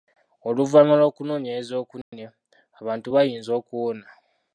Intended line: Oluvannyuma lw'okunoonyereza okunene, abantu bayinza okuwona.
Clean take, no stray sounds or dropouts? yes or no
no